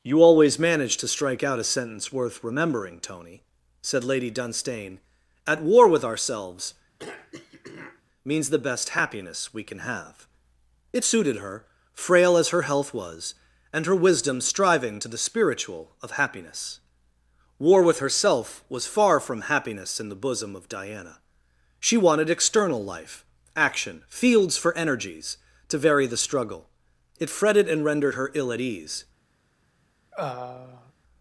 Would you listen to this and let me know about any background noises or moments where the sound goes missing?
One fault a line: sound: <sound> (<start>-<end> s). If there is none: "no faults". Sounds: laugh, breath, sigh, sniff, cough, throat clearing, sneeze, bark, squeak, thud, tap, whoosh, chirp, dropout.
sound: throat clearing (7.0-8.0 s)
sound: throat clearing (30.1-30.9 s)